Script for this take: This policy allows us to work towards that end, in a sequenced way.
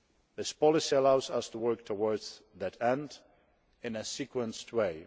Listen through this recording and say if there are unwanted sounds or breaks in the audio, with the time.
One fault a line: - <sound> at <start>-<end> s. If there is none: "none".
none